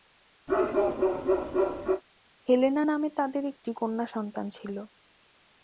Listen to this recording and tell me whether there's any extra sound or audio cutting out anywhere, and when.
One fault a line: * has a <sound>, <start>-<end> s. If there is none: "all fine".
* has a bark, 0.5-2.0 s